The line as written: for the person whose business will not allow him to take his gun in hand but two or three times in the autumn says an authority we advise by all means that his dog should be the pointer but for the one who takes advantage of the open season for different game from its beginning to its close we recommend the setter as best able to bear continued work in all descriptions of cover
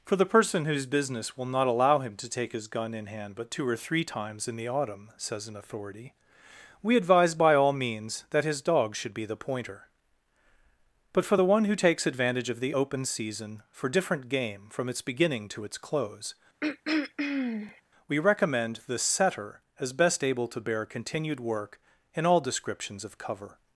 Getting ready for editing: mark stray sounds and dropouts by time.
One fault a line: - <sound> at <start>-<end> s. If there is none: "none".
- throat clearing at 16.6-17.8 s